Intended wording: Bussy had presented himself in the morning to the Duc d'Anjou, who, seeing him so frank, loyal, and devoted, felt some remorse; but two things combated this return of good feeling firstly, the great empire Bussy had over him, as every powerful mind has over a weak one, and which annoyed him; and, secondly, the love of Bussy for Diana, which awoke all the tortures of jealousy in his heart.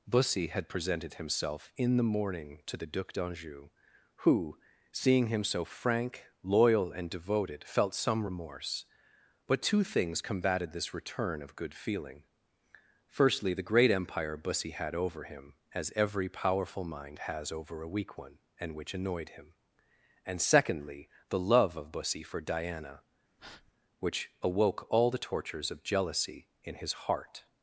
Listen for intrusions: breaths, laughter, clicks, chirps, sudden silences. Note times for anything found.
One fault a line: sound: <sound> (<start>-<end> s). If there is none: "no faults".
sound: breath (23.4-23.7 s)